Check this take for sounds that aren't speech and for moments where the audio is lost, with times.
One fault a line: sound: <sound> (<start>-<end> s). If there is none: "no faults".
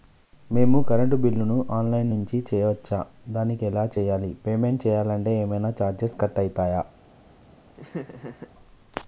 sound: laugh (7.7-8.5 s)